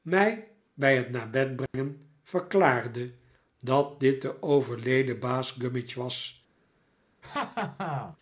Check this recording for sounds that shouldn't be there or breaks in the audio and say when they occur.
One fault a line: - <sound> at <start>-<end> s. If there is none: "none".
- dropout at 1.7-1.7 s
- laugh at 7.2-8.2 s